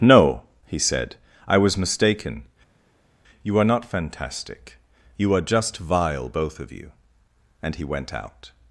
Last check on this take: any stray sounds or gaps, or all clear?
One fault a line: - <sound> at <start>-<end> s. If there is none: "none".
none